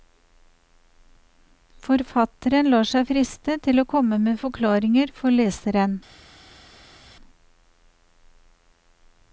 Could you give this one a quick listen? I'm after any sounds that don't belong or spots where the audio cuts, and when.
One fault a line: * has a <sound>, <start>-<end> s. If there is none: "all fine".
all fine